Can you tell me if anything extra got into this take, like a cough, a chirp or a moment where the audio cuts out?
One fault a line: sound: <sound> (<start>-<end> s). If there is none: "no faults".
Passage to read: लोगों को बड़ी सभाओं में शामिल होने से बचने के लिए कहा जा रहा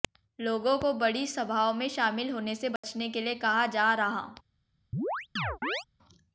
sound: dropout (2.8-2.8 s)
sound: chirp (4.9-5.8 s)